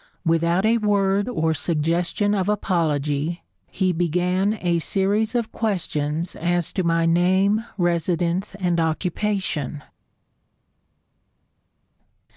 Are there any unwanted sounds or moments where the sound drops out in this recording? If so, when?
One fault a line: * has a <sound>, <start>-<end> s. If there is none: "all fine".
all fine